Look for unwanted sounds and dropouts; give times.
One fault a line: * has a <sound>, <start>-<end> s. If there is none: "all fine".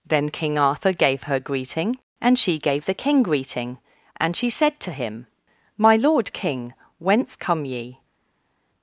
all fine